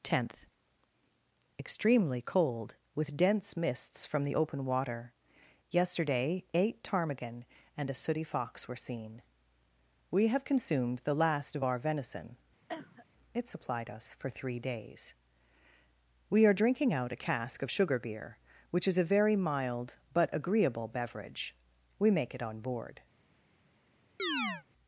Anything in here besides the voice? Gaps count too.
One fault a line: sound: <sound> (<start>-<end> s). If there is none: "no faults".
sound: cough (12.7-13.1 s)
sound: chirp (24.2-24.6 s)